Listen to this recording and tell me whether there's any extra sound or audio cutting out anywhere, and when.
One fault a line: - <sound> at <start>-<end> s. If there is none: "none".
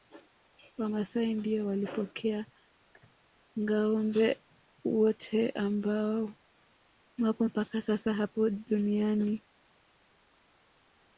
none